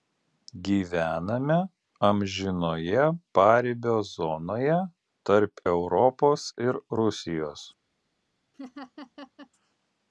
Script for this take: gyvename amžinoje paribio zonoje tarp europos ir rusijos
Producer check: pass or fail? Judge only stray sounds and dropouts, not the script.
fail